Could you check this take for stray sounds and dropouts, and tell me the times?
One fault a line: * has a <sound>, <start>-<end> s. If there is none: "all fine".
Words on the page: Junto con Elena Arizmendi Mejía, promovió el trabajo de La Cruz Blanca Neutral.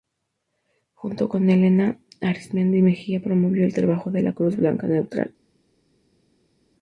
all fine